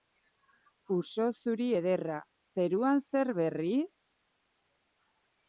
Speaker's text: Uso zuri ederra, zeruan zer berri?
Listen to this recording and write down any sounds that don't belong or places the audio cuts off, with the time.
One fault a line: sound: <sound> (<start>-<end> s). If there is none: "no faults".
no faults